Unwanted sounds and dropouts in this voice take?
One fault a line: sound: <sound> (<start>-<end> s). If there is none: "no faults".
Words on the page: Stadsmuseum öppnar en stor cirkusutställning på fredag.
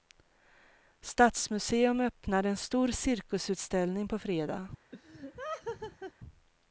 sound: laugh (4.9-6.1 s)